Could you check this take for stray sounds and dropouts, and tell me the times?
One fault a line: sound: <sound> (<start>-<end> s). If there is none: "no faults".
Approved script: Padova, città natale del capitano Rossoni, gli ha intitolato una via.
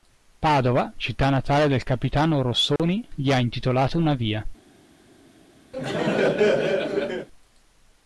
sound: dropout (2.8-2.8 s)
sound: laugh (5.7-7.3 s)